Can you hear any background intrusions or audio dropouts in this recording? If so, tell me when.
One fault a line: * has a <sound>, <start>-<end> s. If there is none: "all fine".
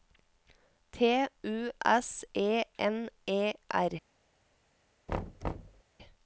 * has a thud, 5.1-5.8 s